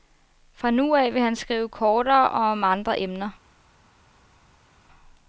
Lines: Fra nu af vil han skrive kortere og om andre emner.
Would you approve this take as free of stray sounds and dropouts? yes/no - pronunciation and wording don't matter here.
yes